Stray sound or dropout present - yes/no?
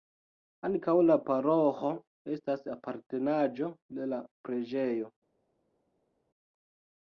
no